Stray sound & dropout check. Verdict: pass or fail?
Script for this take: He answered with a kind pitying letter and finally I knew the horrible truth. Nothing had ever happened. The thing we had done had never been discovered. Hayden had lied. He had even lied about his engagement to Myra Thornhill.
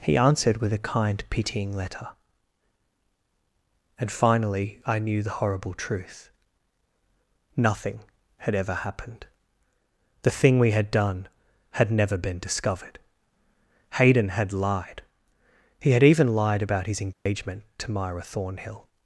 fail